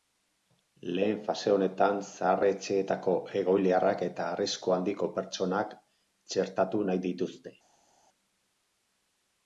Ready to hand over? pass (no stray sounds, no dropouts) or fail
pass